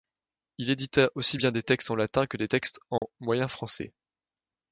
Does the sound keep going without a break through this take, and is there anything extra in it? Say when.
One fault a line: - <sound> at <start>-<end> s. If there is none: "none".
- dropout at 3.0-3.0 s